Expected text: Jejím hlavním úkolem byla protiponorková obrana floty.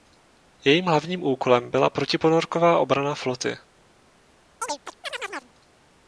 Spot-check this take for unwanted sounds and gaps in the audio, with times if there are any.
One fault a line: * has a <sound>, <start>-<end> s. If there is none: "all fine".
* has a chirp, 4.6-5.5 s